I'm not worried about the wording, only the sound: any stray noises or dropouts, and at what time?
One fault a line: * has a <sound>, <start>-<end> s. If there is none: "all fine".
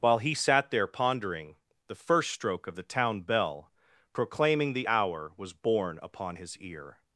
all fine